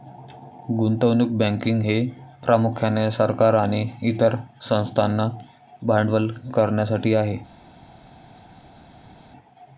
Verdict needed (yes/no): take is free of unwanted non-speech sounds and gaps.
yes